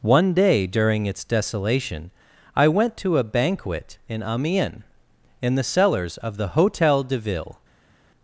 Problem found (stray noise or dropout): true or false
false